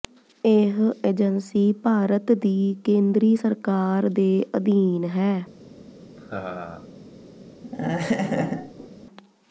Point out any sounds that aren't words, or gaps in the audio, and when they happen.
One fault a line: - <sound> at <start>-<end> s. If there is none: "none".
- laugh at 6.2-6.9 s
- laugh at 7.6-8.9 s